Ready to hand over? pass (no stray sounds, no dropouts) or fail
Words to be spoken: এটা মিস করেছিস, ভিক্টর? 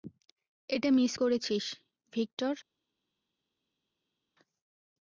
pass